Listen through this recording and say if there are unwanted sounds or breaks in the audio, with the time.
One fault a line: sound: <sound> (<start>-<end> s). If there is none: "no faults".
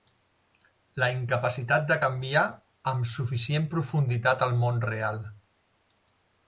no faults